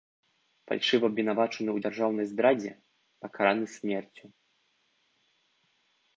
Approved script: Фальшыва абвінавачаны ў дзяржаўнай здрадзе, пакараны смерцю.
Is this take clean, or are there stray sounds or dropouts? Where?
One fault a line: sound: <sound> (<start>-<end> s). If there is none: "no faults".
no faults